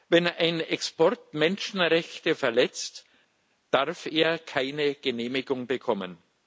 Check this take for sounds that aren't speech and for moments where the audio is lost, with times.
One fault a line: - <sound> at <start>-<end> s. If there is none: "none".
none